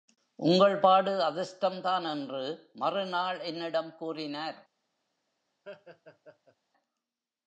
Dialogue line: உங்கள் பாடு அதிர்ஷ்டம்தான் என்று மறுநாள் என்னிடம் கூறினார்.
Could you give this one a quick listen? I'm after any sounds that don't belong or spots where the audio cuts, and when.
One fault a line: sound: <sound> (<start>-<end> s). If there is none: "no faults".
sound: laugh (5.6-6.6 s)